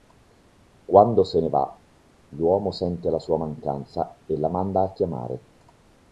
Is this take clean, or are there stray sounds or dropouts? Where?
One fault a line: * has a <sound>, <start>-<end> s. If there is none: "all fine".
all fine